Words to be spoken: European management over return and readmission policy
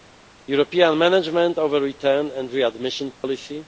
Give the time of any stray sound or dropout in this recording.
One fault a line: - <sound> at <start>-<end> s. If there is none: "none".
- dropout at 3.1-3.2 s